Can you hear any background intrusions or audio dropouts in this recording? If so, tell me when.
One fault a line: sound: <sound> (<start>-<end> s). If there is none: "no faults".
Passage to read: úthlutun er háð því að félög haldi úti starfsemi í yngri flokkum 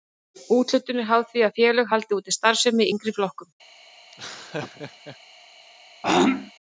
sound: laugh (4.1-5.2 s)
sound: throat clearing (6.0-6.5 s)